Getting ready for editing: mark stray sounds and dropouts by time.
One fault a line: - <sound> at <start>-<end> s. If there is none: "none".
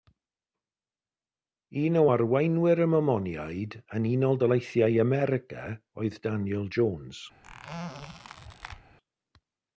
- squeak at 7.4-8.8 s